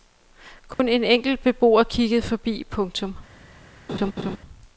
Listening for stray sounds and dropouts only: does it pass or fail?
fail